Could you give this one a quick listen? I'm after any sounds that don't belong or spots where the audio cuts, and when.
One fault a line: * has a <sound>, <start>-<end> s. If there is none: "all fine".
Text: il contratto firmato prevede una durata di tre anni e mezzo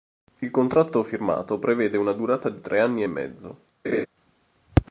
* has a laugh, 3.8-4.1 s